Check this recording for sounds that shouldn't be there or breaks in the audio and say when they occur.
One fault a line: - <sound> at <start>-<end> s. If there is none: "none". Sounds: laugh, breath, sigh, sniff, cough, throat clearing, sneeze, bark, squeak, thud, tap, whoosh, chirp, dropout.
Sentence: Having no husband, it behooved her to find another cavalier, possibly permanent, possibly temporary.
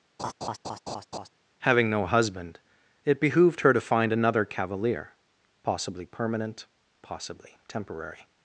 - laugh at 0.2-1.3 s